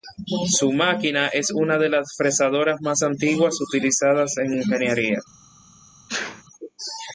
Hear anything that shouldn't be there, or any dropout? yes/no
yes